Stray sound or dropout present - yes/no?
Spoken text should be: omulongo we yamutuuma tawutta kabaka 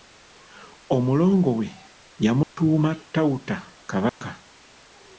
yes